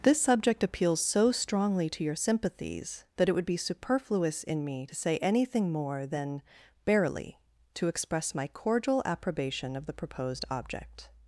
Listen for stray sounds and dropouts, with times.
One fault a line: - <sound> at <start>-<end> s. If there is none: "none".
none